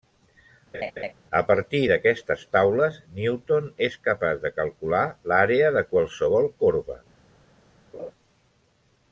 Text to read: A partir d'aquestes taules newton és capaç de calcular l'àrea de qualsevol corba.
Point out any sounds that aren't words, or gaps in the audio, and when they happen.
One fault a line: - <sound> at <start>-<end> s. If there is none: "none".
- laugh at 0.7-1.1 s
- laugh at 7.9-8.1 s